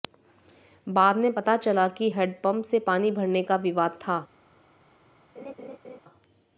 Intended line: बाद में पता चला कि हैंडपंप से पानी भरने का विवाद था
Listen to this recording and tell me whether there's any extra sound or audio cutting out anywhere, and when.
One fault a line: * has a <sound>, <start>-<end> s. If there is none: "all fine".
* has a laugh, 5.4-6.0 s